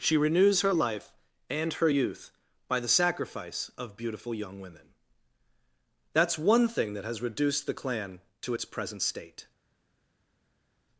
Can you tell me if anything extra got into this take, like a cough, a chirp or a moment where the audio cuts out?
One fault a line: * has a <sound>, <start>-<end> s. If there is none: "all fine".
all fine